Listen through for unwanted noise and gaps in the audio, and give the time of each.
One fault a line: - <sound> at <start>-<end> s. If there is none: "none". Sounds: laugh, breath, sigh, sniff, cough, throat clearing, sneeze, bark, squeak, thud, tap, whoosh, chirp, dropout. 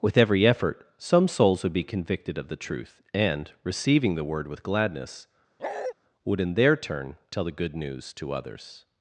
- bark at 5.6-5.9 s